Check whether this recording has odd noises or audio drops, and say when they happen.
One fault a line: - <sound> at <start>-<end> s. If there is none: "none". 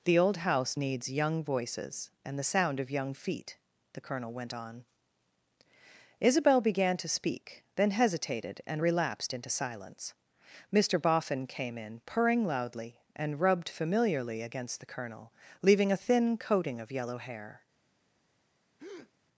- breath at 18.8-19.1 s